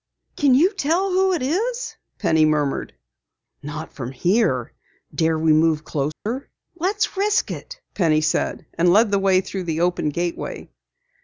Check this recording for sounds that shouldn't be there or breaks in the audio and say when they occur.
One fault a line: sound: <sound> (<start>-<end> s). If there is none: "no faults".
sound: dropout (6.1-6.3 s)